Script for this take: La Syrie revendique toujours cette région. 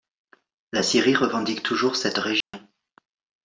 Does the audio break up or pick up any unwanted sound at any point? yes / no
yes